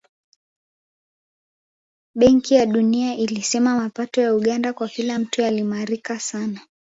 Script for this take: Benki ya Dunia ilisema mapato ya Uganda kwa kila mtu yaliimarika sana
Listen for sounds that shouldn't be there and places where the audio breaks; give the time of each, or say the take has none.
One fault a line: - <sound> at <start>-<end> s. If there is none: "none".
none